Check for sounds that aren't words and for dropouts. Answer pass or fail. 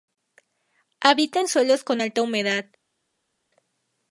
pass